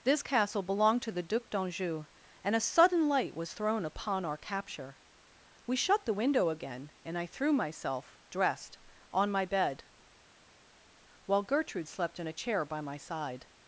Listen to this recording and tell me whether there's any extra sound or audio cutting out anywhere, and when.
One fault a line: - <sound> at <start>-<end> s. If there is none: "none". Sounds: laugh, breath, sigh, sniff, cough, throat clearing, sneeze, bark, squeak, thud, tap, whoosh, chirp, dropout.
none